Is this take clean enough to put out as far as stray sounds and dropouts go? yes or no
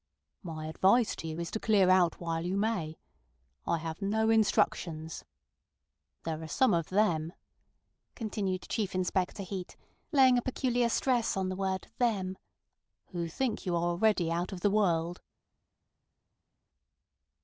yes